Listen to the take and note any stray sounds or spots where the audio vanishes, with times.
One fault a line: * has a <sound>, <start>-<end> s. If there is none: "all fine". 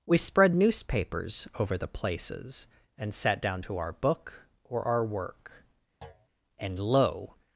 * has a thud, 6.0-6.3 s